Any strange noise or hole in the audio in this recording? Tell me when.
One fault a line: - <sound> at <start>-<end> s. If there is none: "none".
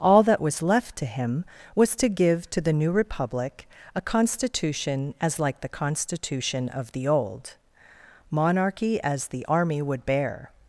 none